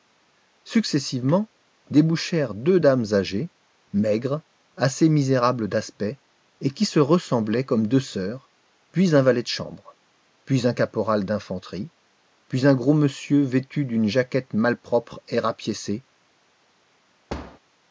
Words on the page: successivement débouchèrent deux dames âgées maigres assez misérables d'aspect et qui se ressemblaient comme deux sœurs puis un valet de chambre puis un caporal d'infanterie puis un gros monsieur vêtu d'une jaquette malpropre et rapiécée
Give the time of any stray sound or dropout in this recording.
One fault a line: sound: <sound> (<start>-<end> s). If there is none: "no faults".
sound: thud (17.3-17.6 s)